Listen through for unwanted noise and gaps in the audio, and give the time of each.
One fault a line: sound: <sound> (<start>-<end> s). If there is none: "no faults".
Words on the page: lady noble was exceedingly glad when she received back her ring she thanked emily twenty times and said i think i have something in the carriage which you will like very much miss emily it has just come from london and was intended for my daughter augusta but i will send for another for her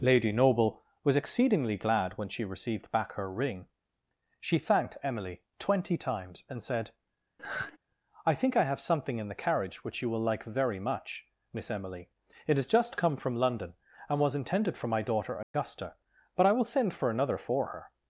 sound: sigh (7.4-7.8 s)
sound: dropout (15.4-15.5 s)